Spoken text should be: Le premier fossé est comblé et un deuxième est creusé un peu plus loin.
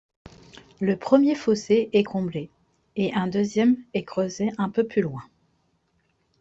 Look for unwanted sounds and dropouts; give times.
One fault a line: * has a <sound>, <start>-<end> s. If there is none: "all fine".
all fine